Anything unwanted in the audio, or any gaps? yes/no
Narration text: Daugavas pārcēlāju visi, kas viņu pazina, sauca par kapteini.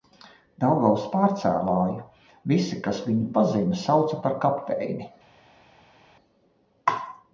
no